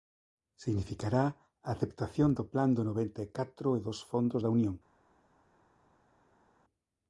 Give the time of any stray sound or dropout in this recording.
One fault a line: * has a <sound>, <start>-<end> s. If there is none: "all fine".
all fine